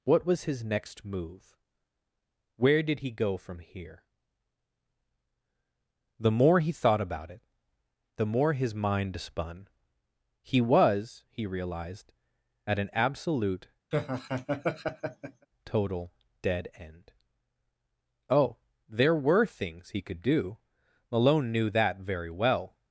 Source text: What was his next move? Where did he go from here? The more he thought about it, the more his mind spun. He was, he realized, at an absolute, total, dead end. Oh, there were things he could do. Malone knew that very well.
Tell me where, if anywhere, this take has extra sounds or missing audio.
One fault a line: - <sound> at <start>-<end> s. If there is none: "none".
- laugh at 13.9-15.5 s